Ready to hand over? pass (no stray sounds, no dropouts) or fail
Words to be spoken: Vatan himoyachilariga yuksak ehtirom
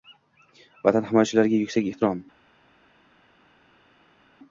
pass